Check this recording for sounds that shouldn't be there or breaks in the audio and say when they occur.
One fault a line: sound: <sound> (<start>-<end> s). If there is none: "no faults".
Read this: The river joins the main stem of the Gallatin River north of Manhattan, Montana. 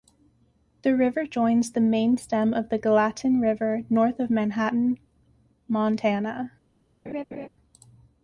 sound: laugh (7.1-7.5 s)